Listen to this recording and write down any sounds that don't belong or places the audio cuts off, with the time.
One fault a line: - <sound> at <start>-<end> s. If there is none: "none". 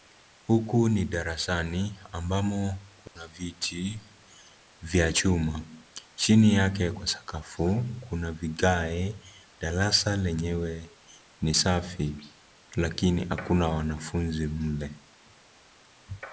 - dropout at 3.1-3.2 s